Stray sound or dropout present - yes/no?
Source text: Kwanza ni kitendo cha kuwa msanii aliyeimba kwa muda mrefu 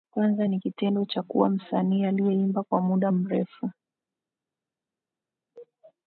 no